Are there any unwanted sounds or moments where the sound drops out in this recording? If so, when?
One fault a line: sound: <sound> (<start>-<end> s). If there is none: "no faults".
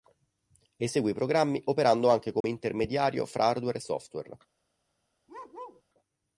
sound: dropout (2.4-2.4 s)
sound: bark (5.3-5.8 s)